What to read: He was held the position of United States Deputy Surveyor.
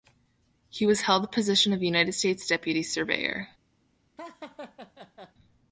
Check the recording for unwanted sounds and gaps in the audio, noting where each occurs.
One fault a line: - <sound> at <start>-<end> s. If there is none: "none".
- laugh at 4.2-5.3 s